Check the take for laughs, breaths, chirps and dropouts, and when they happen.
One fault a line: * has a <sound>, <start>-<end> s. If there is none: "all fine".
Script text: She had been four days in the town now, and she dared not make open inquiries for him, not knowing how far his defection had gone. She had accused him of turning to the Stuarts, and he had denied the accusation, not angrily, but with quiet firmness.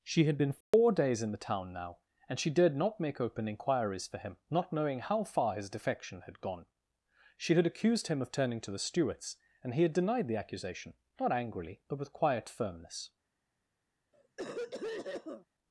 * has a dropout, 0.6-0.7 s
* has a cough, 14.1-15.5 s